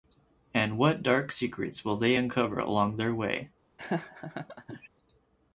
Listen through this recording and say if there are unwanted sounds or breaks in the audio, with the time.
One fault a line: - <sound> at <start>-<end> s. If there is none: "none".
- laugh at 3.8-4.9 s